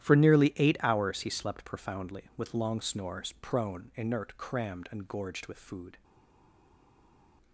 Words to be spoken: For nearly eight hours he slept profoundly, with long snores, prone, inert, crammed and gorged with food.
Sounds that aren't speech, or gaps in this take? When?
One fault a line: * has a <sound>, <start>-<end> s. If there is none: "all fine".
all fine